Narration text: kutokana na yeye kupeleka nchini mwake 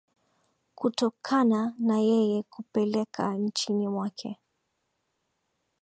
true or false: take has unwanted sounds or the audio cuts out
false